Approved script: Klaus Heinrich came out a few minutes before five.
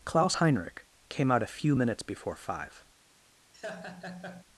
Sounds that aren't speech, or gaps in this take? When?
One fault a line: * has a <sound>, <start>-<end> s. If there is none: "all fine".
* has a laugh, 3.5-4.4 s